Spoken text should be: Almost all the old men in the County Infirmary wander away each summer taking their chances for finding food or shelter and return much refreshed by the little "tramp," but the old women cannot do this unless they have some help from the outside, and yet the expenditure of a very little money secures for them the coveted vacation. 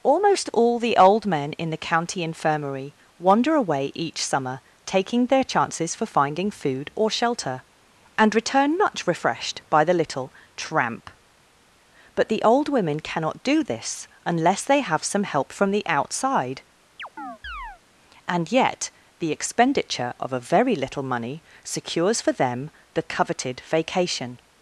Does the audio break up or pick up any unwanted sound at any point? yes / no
yes